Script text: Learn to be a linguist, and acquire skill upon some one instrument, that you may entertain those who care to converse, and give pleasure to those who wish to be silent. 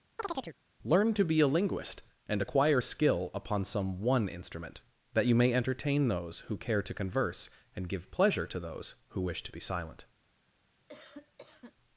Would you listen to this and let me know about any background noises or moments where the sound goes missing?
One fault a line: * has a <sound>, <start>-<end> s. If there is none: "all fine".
* has a chirp, 0.2-0.6 s
* has a cough, 10.9-11.7 s